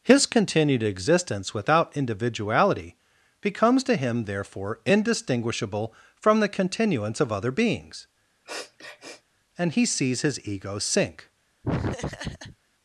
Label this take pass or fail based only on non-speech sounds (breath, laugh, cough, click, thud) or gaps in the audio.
fail